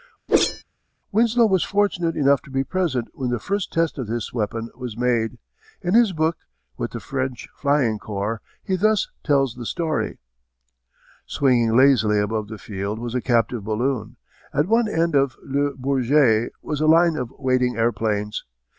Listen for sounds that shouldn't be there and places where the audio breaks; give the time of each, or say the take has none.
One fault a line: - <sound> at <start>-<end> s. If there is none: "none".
- whoosh at 0.3-0.6 s